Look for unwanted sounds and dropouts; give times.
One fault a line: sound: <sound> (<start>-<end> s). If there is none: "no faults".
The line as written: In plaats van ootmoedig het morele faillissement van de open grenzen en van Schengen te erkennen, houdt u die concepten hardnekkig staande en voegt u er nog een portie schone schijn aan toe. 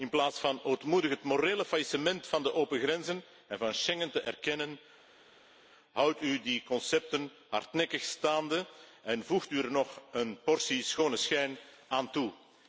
no faults